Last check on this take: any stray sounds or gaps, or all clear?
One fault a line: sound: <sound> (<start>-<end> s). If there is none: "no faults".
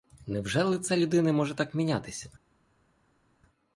no faults